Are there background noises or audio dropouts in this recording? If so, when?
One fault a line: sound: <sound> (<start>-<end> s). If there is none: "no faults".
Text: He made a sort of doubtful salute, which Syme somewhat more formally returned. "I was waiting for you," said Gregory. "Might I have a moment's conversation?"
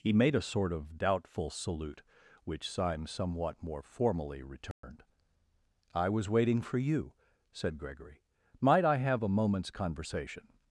sound: dropout (4.7-4.8 s)